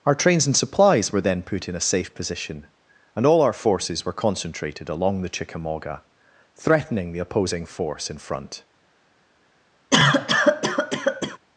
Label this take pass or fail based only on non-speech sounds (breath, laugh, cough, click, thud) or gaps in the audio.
fail